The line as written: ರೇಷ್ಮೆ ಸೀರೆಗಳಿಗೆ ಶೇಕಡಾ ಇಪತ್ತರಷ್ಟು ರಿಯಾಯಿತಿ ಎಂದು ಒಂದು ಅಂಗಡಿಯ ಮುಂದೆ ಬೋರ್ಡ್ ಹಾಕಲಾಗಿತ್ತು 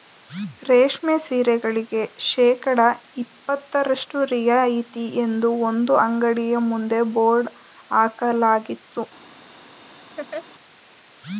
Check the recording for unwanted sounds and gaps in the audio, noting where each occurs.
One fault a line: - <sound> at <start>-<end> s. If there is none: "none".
- laugh at 10.2-10.5 s